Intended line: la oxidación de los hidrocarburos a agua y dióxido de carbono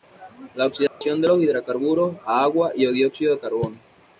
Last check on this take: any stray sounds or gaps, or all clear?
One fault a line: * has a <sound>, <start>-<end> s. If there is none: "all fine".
* has a dropout, 0.9-1.0 s